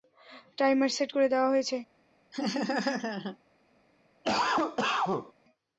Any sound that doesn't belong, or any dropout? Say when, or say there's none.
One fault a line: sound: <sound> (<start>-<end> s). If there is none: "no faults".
sound: laugh (2.3-3.4 s)
sound: cough (4.2-5.3 s)